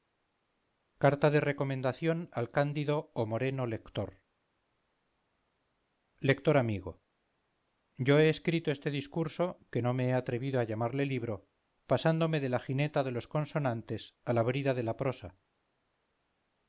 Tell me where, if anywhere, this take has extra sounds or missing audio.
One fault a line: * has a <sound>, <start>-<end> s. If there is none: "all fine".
all fine